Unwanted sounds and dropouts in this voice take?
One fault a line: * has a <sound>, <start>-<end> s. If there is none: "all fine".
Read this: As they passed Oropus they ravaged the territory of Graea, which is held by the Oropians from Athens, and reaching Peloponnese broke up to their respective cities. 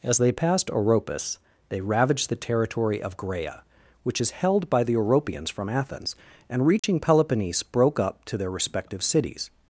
* has a dropout, 6.8-6.8 s